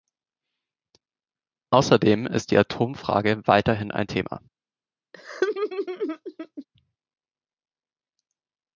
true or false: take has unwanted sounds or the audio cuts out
true